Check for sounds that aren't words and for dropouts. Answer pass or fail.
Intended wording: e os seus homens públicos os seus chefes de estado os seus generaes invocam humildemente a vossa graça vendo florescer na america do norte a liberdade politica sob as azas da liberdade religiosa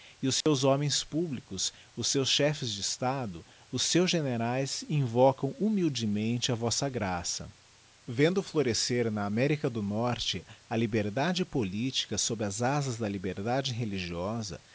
fail